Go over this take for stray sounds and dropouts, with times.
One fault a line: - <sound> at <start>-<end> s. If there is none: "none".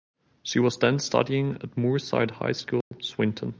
- dropout at 2.8-2.9 s